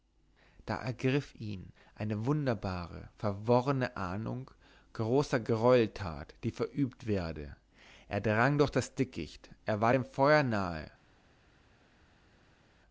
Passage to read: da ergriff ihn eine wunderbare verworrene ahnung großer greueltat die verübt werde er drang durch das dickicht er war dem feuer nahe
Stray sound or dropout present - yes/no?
no